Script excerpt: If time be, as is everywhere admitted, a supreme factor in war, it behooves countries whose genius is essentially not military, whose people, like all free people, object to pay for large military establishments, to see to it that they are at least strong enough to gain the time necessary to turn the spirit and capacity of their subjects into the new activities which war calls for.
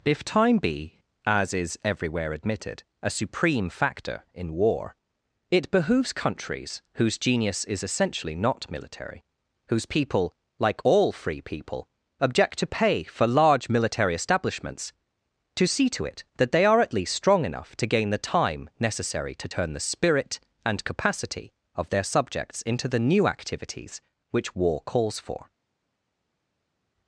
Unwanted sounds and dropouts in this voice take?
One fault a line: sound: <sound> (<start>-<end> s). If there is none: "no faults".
no faults